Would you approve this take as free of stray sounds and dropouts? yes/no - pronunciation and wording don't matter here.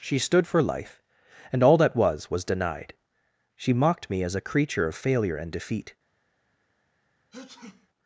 no